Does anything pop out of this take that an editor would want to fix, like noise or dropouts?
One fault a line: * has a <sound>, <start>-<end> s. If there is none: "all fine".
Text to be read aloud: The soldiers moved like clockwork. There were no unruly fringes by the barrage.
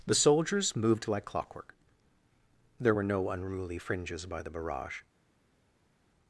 all fine